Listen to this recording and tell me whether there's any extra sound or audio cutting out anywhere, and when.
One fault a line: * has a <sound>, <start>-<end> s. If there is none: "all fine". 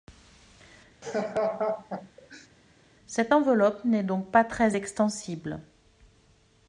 * has a laugh, 1.0-2.5 s